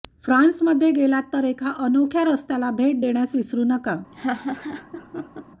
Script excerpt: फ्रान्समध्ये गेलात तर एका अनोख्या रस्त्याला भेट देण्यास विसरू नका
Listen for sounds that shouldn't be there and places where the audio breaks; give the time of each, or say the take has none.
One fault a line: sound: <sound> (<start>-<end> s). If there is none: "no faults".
sound: laugh (4.1-5.4 s)